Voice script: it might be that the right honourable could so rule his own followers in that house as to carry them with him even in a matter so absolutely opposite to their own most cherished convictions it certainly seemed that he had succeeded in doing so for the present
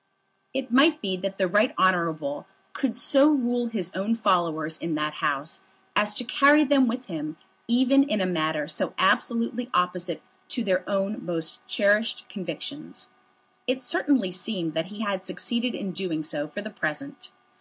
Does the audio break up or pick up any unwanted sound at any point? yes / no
no